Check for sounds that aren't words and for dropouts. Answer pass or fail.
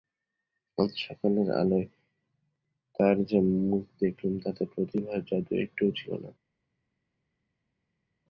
pass